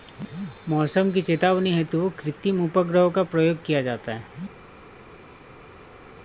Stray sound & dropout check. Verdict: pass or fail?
pass